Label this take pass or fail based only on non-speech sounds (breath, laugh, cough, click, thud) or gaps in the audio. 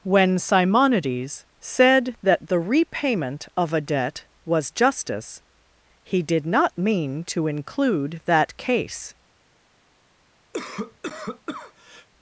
fail